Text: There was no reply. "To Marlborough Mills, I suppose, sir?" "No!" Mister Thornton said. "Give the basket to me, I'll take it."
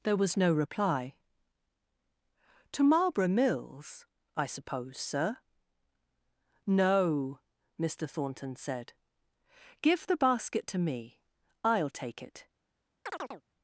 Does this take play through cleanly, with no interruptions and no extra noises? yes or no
no